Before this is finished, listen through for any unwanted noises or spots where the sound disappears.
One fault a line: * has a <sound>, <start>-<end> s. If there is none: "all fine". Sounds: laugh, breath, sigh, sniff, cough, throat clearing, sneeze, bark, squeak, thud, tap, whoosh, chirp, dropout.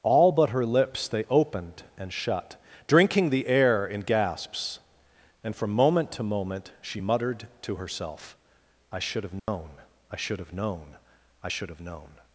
* has a dropout, 9.4-9.5 s